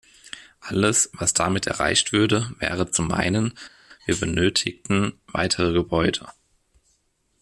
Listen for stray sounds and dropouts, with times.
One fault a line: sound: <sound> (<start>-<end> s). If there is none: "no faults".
no faults